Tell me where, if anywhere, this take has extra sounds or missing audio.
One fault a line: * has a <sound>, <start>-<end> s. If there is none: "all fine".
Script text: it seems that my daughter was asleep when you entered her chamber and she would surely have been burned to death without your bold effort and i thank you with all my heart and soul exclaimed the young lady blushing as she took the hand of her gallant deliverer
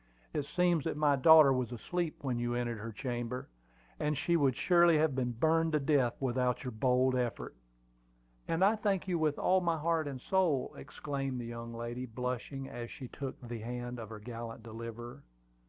all fine